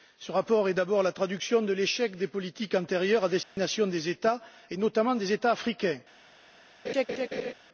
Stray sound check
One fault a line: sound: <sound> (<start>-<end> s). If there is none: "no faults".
sound: dropout (3.4-3.6 s)
sound: laugh (6.8-7.5 s)